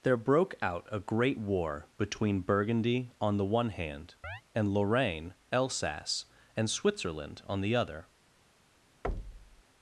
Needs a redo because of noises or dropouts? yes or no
yes